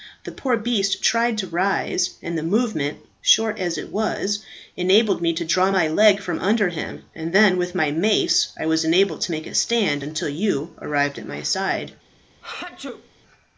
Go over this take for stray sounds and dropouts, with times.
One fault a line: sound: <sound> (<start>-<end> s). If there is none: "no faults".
sound: sneeze (12.4-13.1 s)